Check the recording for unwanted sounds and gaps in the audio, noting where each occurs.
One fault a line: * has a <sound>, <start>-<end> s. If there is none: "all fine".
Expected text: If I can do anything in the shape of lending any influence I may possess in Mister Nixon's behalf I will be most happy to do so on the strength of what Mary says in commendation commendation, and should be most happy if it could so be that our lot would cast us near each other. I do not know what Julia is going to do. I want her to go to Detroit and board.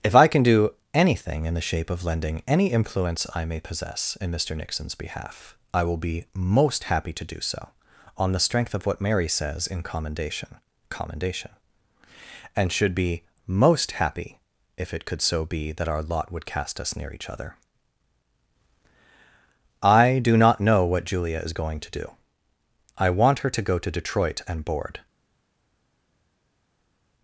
all fine